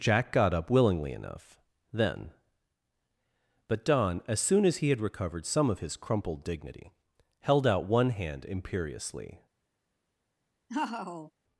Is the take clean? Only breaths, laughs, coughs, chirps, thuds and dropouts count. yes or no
no